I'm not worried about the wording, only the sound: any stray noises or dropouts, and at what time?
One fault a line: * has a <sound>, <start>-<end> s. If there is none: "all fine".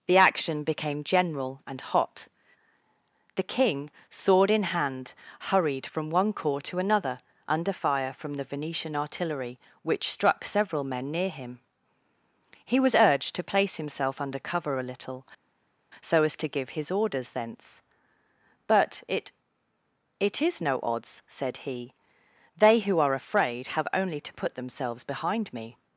all fine